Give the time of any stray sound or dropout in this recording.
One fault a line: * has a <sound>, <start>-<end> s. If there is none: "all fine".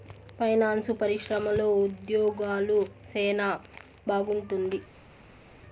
all fine